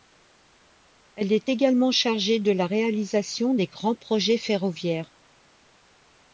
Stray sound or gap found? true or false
false